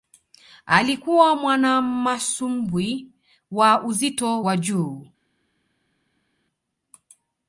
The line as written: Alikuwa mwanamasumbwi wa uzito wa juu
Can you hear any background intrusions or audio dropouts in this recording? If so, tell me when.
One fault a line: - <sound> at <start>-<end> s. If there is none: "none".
none